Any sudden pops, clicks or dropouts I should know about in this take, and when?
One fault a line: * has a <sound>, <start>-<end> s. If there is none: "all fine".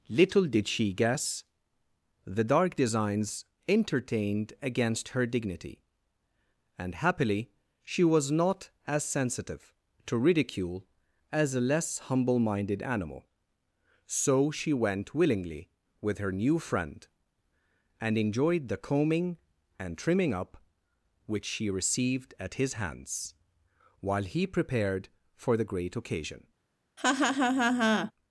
* has a laugh, 27.0-28.1 s